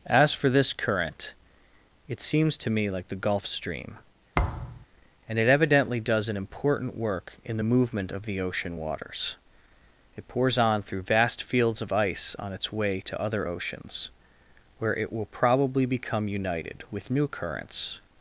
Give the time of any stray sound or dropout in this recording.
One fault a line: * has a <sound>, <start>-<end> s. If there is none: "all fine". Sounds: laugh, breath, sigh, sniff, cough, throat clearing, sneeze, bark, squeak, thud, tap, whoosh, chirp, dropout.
* has a thud, 4.3-4.9 s